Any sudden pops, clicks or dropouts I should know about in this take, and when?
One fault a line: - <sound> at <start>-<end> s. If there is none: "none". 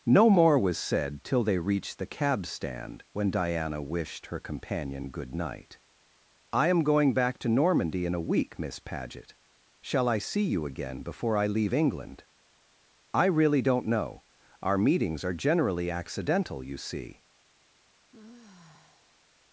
- sigh at 18.1-19.2 s